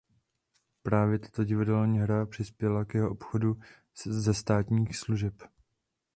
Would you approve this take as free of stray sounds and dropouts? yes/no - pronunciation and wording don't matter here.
yes